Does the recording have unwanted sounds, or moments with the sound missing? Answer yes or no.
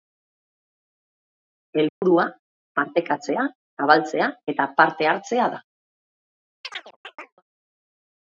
yes